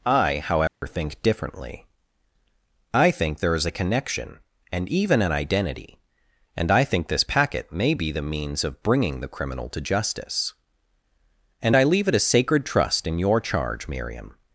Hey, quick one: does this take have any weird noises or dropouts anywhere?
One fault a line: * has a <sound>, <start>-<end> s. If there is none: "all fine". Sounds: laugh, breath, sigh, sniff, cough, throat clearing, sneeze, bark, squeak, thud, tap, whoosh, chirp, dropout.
* has a dropout, 0.7-0.8 s